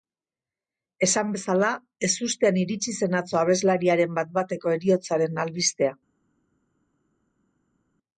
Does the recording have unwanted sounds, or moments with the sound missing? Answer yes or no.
no